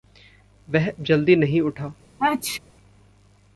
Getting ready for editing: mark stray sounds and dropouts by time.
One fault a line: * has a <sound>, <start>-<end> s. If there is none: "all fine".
* has a sneeze, 2.2-2.6 s